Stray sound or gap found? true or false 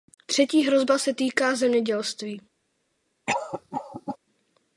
true